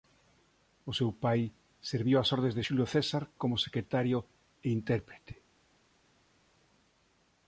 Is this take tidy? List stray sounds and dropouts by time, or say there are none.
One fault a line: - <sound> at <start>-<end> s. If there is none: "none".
none